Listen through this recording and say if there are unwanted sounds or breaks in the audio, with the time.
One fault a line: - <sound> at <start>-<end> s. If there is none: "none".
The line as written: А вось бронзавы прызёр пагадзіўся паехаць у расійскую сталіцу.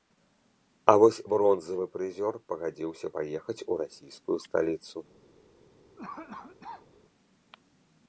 - cough at 6.0-6.9 s